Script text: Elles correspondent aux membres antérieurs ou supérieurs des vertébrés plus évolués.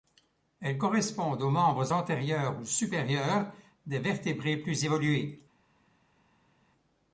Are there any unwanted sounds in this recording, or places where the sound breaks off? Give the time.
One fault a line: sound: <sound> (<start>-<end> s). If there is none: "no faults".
no faults